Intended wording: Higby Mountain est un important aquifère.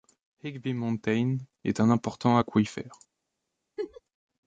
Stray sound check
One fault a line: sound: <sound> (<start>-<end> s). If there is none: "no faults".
sound: laugh (3.8-4.0 s)